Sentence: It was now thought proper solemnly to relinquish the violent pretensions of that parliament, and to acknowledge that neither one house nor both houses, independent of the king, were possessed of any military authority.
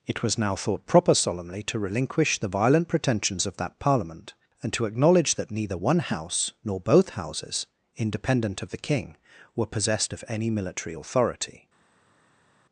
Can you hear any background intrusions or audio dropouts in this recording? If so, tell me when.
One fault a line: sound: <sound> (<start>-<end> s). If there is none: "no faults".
no faults